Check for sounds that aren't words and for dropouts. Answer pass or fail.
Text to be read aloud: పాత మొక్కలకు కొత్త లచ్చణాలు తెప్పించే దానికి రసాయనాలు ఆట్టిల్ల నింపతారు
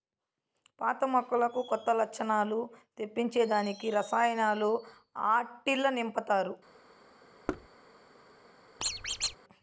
fail